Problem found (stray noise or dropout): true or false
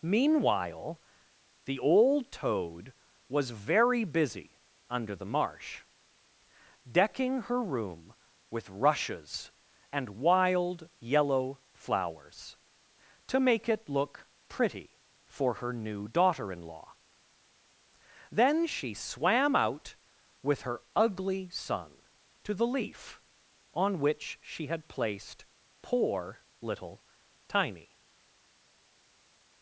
false